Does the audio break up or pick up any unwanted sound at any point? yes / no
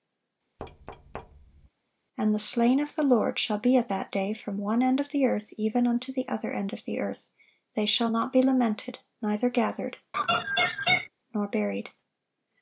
yes